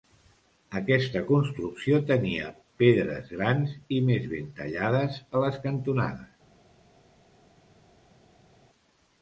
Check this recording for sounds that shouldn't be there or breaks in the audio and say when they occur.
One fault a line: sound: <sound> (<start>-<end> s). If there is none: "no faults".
no faults